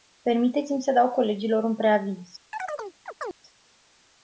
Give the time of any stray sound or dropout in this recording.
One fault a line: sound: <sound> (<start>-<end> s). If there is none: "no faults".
sound: chirp (2.5-3.4 s)